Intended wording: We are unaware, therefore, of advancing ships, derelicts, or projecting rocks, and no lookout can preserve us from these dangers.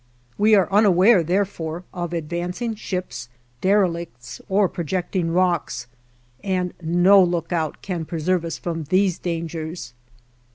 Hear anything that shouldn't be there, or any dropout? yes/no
no